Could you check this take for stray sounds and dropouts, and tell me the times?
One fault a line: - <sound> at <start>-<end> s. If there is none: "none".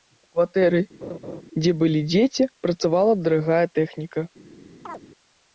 - laugh at 1.0-1.4 s
- chirp at 4.9-5.0 s